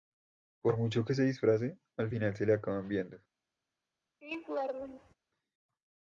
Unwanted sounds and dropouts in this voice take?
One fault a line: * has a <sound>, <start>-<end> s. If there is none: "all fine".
* has a laugh, 4.2-5.1 s